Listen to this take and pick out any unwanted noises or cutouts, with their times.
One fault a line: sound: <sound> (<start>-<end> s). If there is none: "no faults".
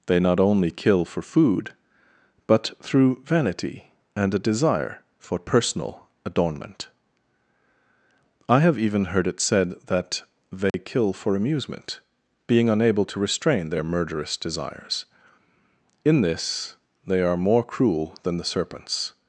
sound: dropout (10.7-10.7 s)